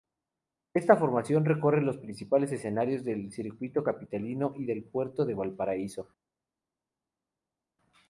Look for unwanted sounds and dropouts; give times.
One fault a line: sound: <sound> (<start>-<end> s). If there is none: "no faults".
no faults